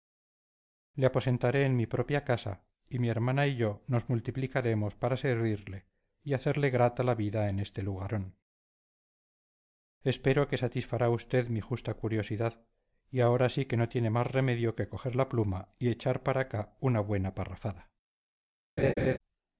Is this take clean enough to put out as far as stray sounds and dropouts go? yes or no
no